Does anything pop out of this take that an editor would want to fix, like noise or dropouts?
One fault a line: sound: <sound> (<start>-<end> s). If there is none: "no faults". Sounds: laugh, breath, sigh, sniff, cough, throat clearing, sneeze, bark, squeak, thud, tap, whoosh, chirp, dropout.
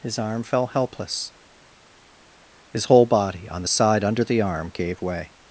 no faults